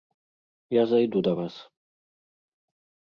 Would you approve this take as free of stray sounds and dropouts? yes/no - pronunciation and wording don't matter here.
yes